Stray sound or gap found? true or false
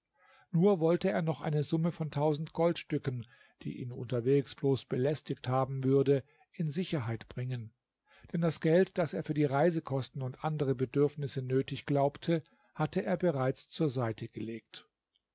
false